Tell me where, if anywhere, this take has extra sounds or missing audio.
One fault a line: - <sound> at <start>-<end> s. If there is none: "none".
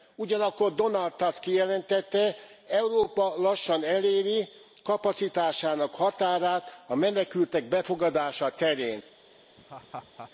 - laugh at 9.6-10.3 s